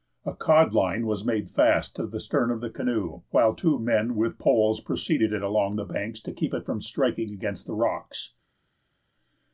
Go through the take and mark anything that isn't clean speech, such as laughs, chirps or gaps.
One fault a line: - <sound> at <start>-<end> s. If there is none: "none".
none